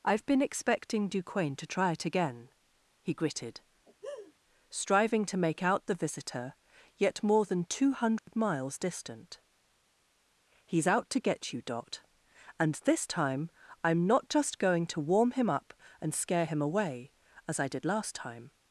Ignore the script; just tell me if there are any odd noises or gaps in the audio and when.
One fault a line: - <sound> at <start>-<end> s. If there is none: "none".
- laugh at 3.9-4.3 s
- dropout at 8.2-8.3 s